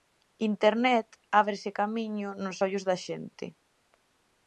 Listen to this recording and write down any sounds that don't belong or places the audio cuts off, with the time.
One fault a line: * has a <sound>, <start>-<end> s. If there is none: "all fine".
all fine